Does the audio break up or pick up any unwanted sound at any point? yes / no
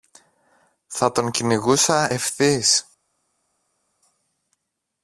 no